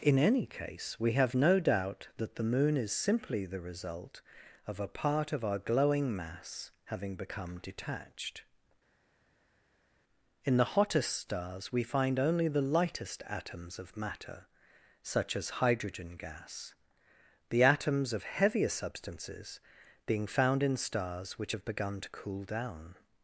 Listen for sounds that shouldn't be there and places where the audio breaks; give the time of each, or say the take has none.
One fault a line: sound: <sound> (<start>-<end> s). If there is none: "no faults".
no faults